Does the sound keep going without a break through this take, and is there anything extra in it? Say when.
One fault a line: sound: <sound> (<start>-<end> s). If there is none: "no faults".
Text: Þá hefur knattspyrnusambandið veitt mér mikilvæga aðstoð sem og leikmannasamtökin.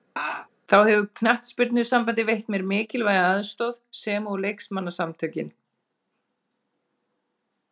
sound: laugh (0.2-0.5 s)